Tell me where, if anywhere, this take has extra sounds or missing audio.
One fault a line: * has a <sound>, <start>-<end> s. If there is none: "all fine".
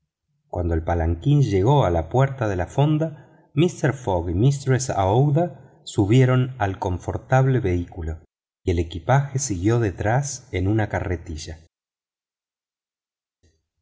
all fine